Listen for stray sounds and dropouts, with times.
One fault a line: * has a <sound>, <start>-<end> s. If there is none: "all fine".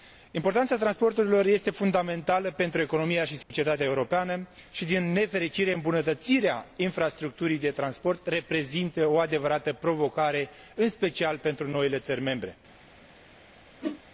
* has a dropout, 3.4-3.5 s
* has a whoosh, 13.8-14.0 s